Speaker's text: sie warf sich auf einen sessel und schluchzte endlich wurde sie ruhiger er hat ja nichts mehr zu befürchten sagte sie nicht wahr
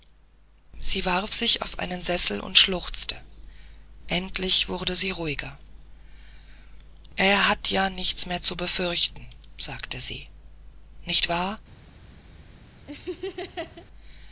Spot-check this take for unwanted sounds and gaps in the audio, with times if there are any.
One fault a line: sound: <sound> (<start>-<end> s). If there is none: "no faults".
sound: laugh (12.9-13.9 s)